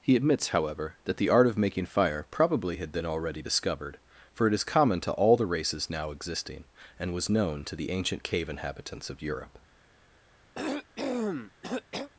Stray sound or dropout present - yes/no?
yes